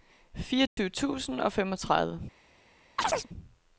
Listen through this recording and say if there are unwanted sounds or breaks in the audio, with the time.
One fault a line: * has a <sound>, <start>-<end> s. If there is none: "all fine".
* has a dropout, 0.7-0.8 s
* has a chirp, 3.0-3.3 s